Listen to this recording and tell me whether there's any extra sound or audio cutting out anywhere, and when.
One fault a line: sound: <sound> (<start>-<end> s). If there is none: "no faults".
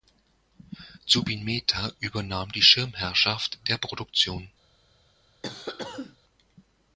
sound: cough (5.4-6.2 s)